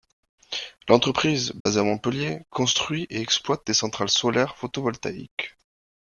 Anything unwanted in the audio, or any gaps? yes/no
yes